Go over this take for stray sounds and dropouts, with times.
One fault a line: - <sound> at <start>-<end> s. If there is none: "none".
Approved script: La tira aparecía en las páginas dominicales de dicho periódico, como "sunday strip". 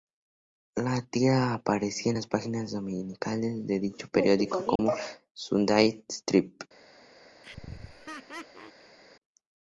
- dropout at 4.8-4.8 s
- laugh at 7.4-9.0 s